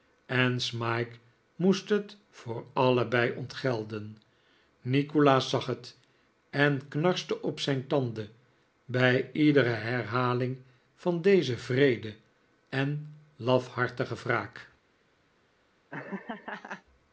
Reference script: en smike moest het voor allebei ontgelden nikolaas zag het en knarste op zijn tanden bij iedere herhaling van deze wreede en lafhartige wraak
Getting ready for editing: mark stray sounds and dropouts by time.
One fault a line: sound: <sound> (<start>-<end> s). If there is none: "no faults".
sound: laugh (15.9-16.8 s)